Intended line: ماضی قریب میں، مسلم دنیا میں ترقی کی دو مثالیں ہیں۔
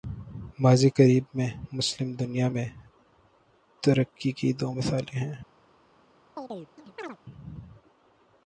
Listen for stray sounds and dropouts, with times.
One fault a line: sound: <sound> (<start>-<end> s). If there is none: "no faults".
sound: chirp (6.4-7.2 s)